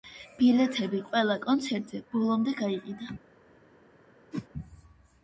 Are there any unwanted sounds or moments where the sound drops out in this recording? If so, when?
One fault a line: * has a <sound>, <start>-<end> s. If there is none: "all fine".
* has a whoosh, 4.3-4.5 s